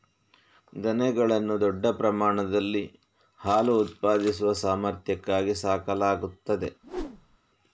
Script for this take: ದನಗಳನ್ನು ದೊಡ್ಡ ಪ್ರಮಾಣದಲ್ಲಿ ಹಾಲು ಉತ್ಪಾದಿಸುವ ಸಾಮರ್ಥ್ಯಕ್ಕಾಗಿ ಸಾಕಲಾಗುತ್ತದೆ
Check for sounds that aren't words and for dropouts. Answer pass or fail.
fail